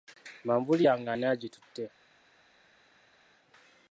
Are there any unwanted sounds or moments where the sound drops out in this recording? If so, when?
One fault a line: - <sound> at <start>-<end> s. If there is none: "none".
none